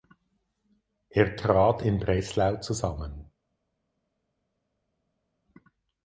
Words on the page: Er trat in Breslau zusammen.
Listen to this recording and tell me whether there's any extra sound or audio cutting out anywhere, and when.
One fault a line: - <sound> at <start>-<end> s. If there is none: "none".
none